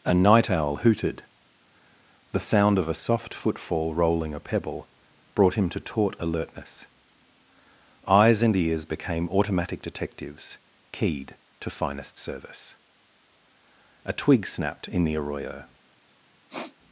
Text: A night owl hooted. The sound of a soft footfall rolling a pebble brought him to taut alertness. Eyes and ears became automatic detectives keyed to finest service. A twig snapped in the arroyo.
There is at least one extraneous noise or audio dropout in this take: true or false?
true